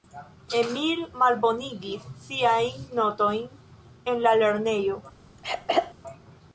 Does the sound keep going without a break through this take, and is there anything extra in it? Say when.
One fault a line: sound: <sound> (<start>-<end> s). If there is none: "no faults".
sound: throat clearing (5.4-5.9 s)